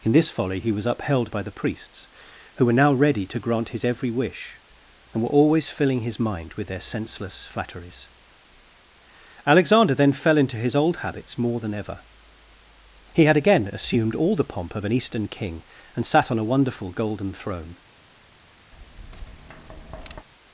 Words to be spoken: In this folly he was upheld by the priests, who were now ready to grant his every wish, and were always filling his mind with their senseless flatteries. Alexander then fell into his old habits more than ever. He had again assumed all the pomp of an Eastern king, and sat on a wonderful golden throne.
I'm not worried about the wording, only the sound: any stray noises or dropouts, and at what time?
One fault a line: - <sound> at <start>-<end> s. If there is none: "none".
- tap at 18.7-20.3 s